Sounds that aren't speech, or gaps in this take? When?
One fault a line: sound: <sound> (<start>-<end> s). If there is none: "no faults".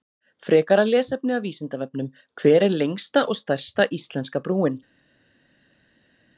no faults